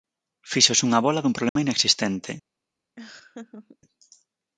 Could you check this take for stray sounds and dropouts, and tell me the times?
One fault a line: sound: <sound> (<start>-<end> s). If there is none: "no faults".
sound: dropout (1.5-1.6 s)
sound: laugh (3.0-3.8 s)